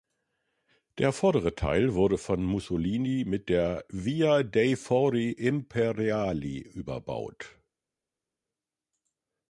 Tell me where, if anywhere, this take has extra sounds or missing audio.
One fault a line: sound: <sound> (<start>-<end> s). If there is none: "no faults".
no faults